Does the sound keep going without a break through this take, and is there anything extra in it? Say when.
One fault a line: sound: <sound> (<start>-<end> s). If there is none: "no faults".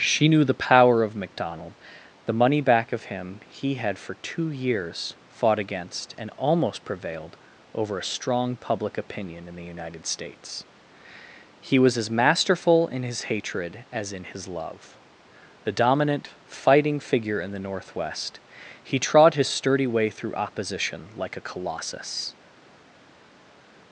no faults